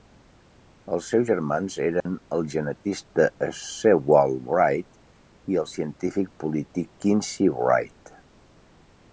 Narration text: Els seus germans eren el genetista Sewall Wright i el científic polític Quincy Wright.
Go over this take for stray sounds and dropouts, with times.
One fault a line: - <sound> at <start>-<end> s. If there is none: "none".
- dropout at 2.0-2.1 s